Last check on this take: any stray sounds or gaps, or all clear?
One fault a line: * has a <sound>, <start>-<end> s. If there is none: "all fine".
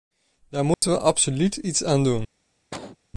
* has a dropout, 0.7-0.8 s
* has a cough, 2.7-3.0 s